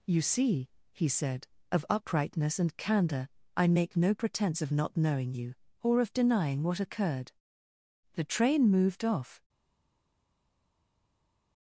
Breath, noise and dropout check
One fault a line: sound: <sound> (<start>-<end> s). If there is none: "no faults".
no faults